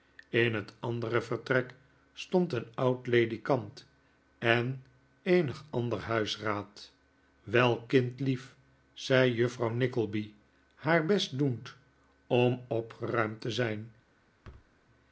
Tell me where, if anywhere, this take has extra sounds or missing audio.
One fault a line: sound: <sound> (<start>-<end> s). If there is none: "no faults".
sound: thud (14.4-14.7 s)